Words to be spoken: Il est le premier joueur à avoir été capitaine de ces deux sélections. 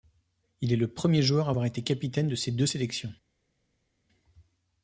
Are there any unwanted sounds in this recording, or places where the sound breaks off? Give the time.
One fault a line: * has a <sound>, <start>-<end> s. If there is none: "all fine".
all fine